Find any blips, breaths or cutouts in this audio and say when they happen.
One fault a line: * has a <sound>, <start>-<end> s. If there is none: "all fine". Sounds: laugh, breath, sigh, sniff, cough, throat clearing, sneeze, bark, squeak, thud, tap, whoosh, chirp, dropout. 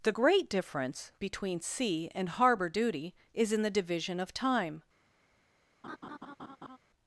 * has a laugh, 5.8-6.8 s